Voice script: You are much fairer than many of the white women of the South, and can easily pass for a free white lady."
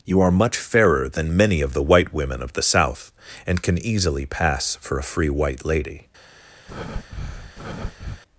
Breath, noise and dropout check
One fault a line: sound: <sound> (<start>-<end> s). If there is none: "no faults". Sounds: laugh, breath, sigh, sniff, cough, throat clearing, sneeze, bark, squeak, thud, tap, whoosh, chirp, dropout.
sound: breath (6.7-8.2 s)